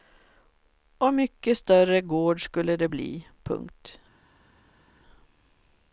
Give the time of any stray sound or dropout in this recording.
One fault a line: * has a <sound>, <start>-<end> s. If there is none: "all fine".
all fine